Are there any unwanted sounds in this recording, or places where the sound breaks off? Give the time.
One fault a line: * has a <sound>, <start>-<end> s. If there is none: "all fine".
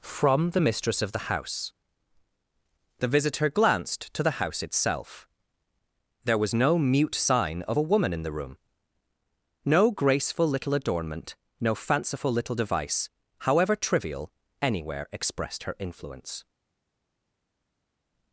all fine